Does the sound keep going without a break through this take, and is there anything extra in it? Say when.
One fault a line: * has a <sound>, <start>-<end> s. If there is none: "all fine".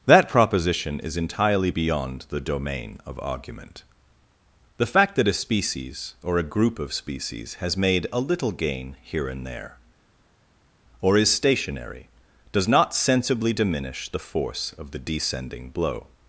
all fine